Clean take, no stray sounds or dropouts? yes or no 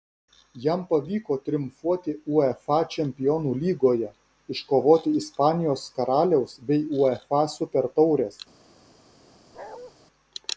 no